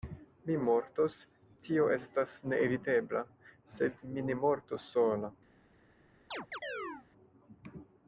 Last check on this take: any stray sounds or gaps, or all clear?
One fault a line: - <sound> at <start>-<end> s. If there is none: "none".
- chirp at 6.3-7.1 s